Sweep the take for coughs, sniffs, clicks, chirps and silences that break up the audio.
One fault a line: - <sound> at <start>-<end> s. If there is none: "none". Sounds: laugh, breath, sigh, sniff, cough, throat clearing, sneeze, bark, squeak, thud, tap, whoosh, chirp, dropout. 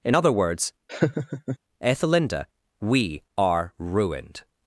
- laugh at 0.9-1.6 s